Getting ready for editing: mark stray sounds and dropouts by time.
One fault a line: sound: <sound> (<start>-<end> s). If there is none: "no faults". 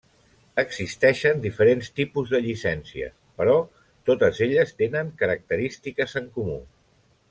no faults